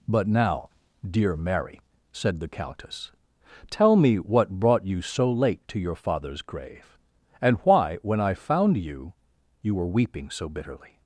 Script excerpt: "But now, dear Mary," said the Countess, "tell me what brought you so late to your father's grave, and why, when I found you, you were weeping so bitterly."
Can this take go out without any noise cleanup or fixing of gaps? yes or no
yes